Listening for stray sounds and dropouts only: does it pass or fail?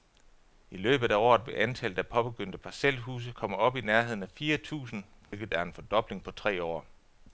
fail